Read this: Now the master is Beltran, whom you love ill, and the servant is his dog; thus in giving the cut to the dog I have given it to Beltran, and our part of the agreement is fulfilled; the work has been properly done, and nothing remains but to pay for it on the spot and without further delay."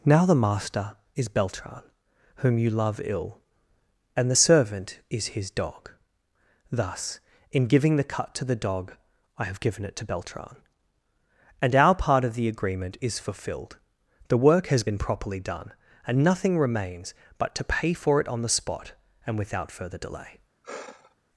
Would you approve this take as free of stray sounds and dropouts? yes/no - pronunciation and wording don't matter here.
no